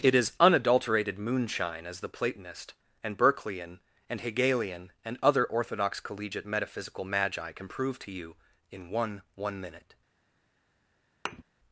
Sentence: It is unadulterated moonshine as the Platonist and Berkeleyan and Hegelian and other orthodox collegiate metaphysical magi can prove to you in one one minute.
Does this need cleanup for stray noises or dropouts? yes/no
yes